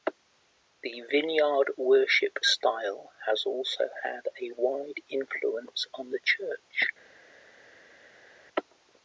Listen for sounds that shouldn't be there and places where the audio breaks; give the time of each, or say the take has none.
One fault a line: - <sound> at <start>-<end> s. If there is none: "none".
none